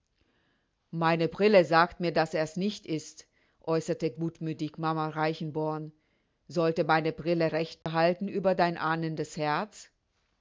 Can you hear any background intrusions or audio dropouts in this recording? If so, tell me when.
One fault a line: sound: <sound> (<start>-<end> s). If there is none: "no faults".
sound: dropout (7.8-7.9 s)